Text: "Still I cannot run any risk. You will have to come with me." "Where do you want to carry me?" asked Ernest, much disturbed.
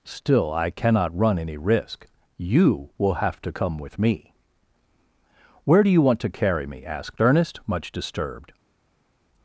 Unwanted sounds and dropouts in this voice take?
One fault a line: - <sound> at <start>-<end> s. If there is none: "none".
none